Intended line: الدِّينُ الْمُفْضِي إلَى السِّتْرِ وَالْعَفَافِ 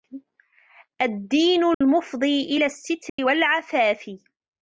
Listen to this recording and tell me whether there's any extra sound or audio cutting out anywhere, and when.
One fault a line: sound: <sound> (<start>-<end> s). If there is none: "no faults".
sound: dropout (1.7-1.8 s)
sound: dropout (3.1-3.2 s)